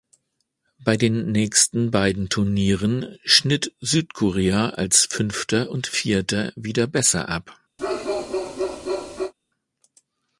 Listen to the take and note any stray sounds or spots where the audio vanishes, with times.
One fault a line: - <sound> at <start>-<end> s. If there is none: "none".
- bark at 7.8-9.3 s